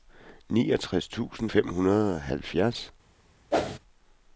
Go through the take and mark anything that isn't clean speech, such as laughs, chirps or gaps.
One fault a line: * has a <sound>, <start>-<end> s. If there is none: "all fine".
* has a whoosh, 3.5-3.8 s